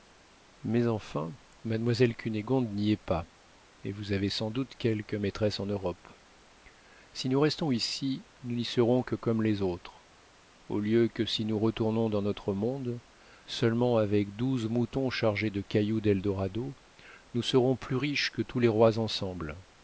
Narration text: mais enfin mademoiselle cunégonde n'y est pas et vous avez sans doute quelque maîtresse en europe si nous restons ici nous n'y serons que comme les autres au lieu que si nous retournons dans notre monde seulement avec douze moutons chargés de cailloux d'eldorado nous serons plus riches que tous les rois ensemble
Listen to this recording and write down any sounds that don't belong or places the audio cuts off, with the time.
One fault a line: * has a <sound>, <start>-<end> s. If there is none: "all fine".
all fine